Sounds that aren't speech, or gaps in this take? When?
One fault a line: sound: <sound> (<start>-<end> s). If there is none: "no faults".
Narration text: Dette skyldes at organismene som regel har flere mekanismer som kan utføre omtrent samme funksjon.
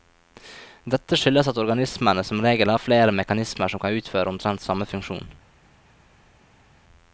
no faults